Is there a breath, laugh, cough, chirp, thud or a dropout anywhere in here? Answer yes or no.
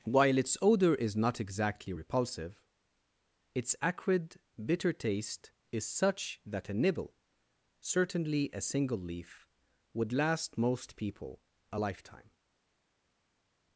no